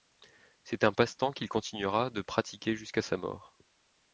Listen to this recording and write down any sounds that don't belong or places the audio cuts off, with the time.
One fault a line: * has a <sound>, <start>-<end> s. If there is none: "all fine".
all fine